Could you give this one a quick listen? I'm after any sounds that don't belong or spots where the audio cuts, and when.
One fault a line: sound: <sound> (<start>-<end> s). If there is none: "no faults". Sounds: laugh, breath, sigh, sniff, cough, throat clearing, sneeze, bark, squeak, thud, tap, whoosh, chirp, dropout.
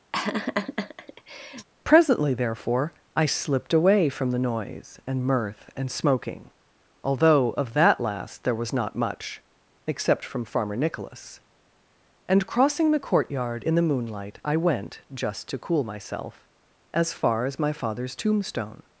sound: laugh (0.1-1.7 s)